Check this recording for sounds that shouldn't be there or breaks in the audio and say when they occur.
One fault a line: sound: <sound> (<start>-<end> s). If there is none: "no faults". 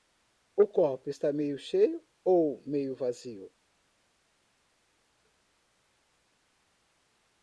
no faults